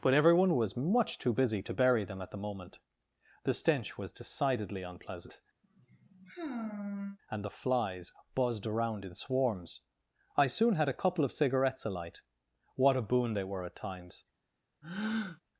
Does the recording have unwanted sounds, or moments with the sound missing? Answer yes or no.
yes